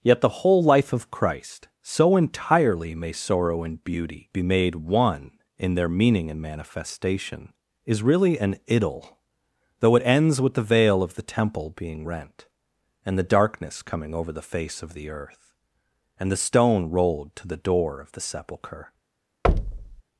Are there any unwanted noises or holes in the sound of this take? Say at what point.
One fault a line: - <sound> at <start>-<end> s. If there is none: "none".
- thud at 19.4-20.0 s